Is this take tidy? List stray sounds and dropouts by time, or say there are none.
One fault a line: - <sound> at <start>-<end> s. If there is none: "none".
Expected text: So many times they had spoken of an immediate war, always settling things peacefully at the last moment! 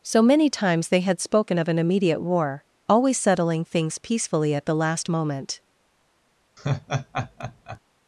- laugh at 6.6-7.8 s